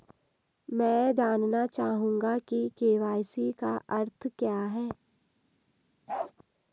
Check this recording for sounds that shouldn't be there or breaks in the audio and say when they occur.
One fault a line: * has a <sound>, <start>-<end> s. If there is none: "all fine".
* has a bark, 6.1-6.3 s